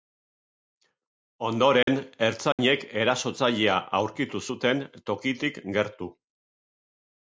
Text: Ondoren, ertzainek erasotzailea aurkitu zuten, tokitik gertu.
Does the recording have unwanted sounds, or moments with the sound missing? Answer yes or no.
yes